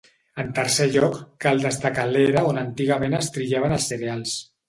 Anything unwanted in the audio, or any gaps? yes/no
no